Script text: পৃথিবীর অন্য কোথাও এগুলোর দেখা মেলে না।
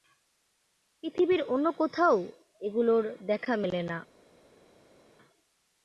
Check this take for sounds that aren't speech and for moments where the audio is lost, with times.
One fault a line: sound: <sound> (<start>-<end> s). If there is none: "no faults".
no faults